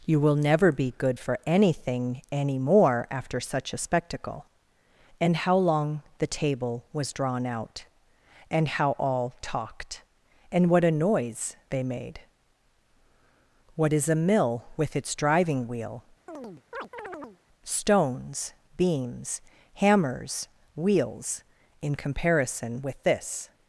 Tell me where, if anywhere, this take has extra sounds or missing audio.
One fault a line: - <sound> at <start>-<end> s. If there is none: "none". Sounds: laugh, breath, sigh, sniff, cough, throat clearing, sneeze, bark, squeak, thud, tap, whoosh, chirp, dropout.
- chirp at 16.3-17.4 s